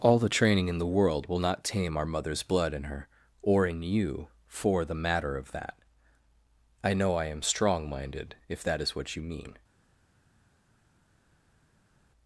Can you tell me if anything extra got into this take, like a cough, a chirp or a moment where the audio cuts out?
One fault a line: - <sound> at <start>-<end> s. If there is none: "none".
none